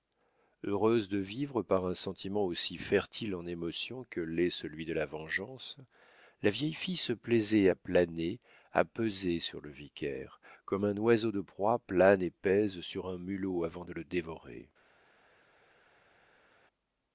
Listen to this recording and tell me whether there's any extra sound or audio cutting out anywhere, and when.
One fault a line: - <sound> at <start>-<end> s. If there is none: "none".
none